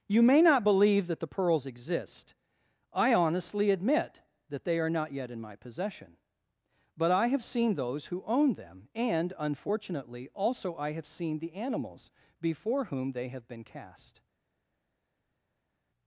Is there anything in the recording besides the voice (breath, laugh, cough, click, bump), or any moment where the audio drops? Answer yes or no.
no